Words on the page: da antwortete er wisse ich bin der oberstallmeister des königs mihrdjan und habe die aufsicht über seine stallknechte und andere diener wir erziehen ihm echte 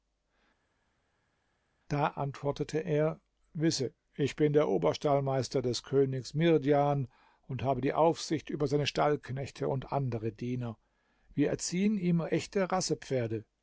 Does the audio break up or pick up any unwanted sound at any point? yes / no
no